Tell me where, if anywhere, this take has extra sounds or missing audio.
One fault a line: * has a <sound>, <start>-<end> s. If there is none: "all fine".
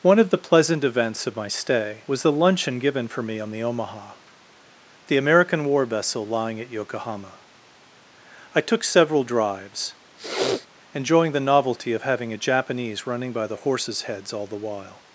* has a sniff, 10.2-10.7 s